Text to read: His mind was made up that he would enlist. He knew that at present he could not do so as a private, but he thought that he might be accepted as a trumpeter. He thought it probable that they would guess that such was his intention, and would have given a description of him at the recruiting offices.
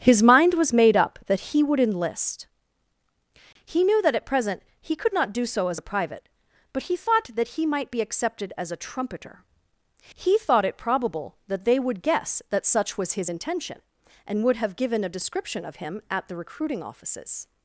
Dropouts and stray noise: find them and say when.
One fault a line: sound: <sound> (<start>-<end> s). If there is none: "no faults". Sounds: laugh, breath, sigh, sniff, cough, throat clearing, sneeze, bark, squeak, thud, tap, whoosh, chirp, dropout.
no faults